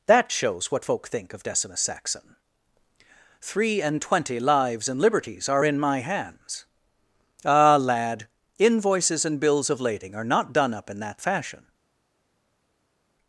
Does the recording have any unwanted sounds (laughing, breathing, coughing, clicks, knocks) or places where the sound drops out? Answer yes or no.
no